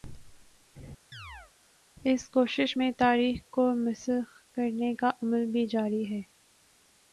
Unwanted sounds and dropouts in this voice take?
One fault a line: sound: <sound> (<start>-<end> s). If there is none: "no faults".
sound: chirp (1.1-1.5 s)